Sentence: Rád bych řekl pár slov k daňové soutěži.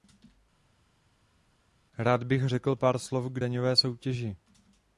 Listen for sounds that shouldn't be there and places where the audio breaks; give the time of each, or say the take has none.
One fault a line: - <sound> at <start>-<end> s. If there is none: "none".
none